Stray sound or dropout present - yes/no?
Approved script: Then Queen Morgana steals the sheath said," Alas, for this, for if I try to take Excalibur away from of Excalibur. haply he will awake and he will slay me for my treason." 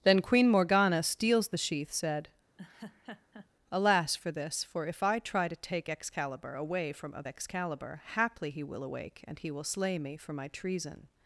yes